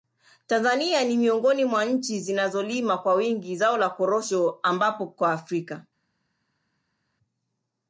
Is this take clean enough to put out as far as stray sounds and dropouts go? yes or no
yes